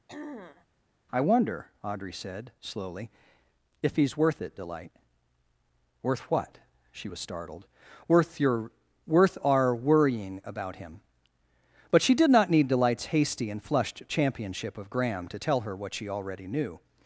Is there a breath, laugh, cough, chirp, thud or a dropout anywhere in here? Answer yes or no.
yes